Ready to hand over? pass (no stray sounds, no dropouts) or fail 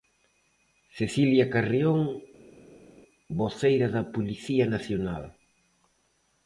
pass